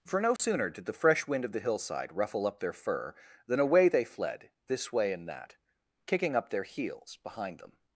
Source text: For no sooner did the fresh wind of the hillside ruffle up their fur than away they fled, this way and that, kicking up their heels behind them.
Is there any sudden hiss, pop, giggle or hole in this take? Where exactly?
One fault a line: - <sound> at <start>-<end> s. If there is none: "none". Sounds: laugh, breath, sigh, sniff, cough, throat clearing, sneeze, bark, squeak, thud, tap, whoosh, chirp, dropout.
- dropout at 0.4-0.4 s